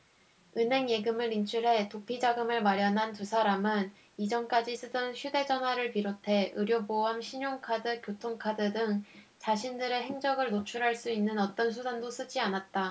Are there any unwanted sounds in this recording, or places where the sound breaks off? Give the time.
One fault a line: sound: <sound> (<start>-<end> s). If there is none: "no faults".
no faults